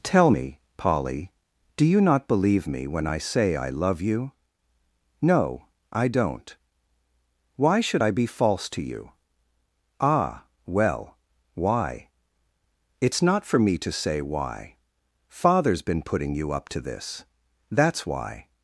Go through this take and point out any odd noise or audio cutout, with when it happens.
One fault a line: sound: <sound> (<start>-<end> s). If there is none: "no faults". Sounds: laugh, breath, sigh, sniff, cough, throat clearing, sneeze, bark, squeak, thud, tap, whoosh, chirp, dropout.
no faults